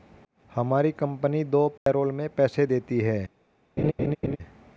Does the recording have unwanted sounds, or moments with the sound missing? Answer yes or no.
yes